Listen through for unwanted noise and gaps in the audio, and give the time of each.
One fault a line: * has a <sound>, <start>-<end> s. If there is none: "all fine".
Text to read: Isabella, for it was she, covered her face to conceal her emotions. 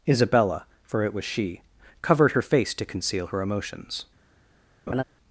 * has a laugh, 4.9-5.0 s